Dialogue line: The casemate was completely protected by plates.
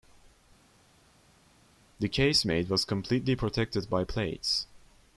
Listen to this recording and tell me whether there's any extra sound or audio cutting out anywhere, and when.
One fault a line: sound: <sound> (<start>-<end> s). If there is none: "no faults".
no faults